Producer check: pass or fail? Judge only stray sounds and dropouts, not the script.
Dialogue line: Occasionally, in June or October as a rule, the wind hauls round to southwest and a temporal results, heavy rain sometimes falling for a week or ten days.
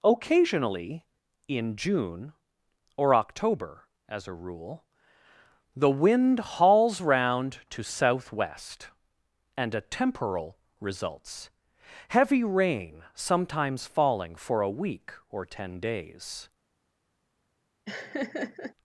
fail